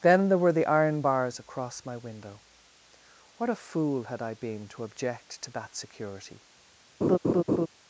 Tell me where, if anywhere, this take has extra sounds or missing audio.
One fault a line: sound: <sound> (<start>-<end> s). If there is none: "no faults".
sound: laugh (7.0-7.7 s)